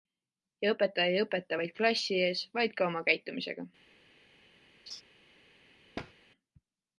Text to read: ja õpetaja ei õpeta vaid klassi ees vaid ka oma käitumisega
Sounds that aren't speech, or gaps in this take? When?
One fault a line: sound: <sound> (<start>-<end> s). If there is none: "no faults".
sound: laugh (4.9-5.0 s)
sound: thud (6.0-6.1 s)